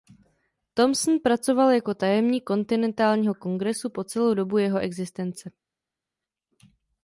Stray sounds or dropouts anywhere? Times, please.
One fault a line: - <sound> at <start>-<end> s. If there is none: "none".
none